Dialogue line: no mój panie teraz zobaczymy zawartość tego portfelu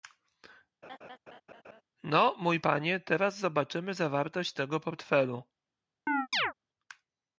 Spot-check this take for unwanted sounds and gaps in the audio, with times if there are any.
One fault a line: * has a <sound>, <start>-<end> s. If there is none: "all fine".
* has a laugh, 0.8-1.8 s
* has a chirp, 6.1-6.5 s